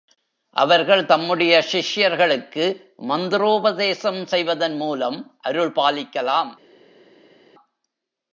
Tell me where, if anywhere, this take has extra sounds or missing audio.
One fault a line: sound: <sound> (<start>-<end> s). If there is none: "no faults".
no faults